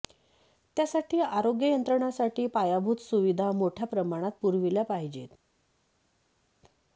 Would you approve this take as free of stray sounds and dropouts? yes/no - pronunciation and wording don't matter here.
yes